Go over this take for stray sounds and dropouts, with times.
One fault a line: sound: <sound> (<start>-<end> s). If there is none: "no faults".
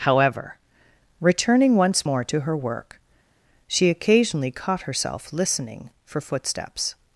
no faults